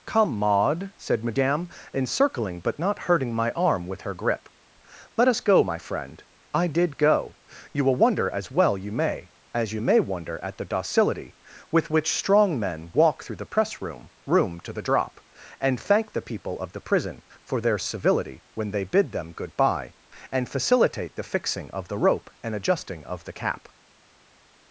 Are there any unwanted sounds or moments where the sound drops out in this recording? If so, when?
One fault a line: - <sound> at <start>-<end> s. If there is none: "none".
none